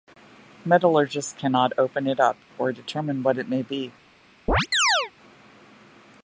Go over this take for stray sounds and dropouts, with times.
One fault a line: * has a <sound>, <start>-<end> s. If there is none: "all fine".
* has a chirp, 4.5-5.1 s